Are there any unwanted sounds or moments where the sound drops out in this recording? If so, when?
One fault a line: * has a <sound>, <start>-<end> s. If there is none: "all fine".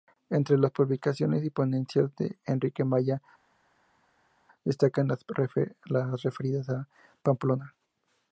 all fine